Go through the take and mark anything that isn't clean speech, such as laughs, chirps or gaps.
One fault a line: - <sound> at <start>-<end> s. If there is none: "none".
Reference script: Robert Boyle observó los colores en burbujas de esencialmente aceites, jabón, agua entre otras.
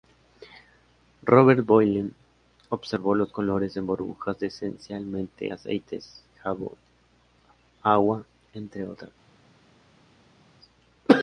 none